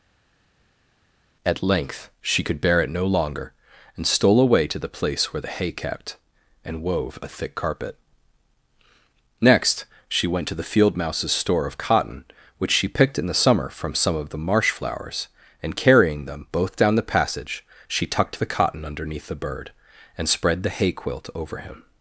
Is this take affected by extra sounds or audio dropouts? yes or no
no